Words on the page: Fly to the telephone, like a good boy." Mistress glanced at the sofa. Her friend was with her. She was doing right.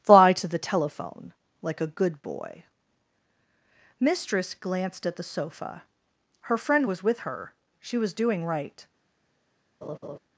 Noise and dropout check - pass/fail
fail